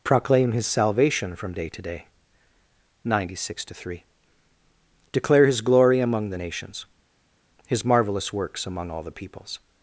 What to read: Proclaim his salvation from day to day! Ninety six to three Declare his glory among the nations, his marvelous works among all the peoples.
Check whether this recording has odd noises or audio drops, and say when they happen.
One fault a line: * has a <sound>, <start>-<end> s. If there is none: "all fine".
all fine